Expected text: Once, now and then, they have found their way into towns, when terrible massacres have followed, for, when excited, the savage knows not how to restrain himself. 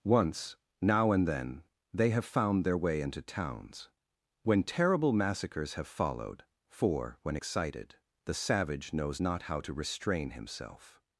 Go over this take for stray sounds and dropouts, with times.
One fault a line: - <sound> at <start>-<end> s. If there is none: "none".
none